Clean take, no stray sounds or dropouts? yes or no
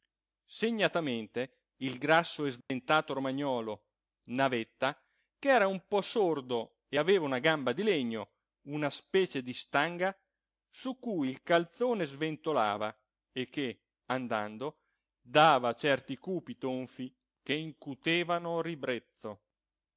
no